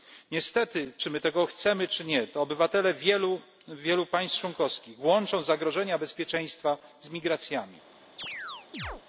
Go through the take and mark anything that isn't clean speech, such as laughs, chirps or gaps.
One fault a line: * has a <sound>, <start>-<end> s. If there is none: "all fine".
* has a chirp, 8.2-9.0 s